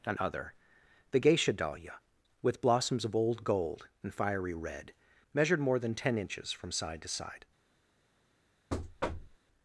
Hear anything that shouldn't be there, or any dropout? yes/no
yes